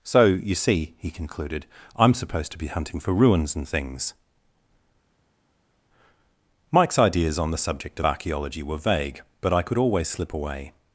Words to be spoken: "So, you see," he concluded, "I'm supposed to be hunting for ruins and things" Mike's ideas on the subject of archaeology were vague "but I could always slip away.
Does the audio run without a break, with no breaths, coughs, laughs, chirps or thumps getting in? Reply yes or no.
yes